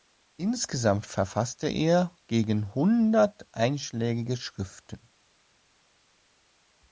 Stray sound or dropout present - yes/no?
no